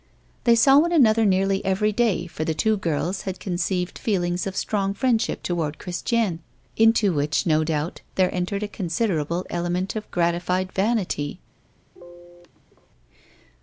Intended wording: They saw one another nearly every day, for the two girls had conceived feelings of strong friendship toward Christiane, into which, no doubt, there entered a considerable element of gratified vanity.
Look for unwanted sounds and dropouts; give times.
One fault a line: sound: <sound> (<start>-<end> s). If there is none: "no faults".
sound: sneeze (11.9-12.9 s)